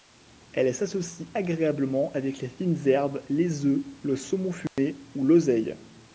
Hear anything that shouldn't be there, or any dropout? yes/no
yes